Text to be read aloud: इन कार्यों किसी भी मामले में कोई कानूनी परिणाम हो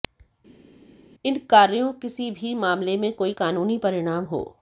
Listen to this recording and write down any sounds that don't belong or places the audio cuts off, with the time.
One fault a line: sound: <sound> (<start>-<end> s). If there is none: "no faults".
no faults